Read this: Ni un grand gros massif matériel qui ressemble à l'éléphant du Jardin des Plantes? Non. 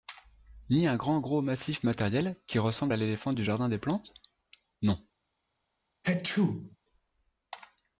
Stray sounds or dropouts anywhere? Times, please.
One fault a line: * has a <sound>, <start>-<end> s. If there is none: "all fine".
* has a sneeze, 6.0-6.8 s